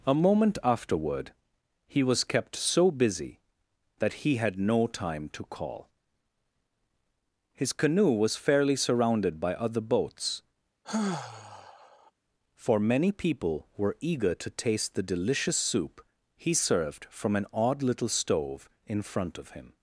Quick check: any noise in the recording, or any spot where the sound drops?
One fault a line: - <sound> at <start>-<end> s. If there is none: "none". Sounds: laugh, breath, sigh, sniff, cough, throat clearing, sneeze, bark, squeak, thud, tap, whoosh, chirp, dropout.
- sigh at 10.8-12.1 s